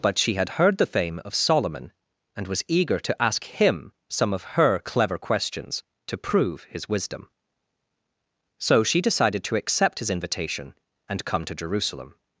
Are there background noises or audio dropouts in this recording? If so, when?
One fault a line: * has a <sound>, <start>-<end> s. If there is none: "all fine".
all fine